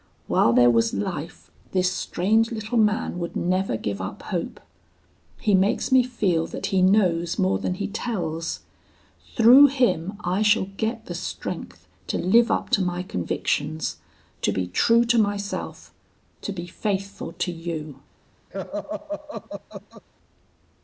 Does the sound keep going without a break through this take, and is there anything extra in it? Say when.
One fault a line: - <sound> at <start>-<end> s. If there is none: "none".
- laugh at 18.5-20.0 s